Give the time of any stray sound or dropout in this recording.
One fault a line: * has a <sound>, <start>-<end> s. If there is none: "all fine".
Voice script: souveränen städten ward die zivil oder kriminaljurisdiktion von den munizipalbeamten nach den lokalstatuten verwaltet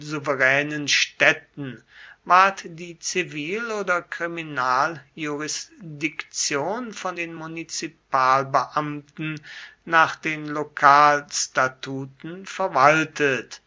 all fine